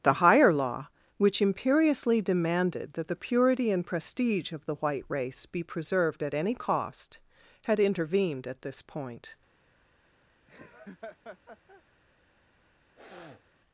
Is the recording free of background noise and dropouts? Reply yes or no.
no